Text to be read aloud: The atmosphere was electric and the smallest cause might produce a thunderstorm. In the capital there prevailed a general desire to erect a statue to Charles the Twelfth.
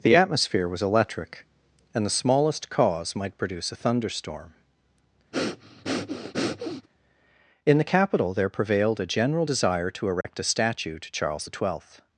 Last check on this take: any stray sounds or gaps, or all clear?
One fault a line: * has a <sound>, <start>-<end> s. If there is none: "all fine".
* has a breath, 5.3-6.9 s
* has a dropout, 10.2-10.2 s